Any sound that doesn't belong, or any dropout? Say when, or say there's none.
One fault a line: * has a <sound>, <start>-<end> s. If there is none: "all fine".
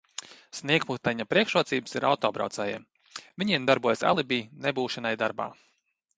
all fine